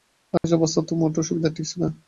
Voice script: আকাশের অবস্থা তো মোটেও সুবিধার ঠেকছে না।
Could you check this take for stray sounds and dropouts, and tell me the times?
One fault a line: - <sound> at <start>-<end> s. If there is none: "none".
- dropout at 0.4-0.4 s